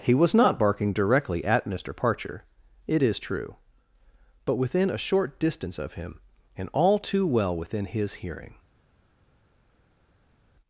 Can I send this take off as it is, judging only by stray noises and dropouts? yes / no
yes